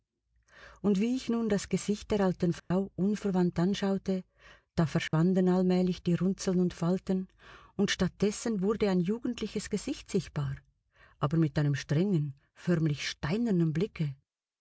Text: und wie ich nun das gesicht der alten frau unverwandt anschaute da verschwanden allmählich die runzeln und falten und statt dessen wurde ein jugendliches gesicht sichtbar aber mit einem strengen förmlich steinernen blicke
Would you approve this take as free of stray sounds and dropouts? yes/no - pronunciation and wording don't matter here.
no